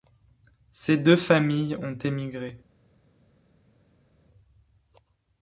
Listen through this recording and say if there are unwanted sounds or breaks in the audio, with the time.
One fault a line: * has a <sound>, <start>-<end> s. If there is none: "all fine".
all fine